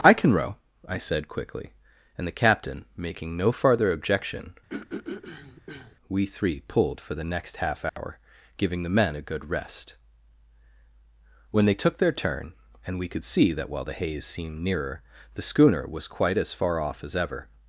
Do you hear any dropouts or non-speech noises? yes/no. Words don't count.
yes